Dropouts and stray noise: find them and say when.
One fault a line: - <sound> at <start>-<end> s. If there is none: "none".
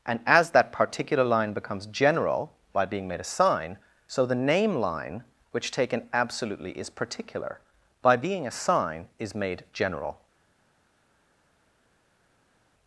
none